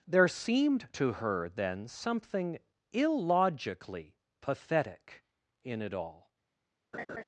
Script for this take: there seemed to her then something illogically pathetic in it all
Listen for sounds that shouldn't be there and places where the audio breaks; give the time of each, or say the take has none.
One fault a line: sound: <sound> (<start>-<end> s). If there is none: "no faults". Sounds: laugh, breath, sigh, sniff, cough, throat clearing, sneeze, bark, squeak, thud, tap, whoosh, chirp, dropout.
sound: laugh (6.9-7.2 s)